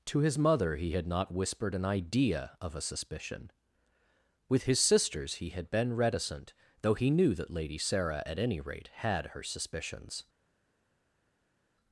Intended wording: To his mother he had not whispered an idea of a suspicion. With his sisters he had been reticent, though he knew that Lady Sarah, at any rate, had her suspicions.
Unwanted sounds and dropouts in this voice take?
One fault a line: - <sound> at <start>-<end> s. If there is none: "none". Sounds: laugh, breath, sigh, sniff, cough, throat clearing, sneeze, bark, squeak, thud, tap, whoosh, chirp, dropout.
none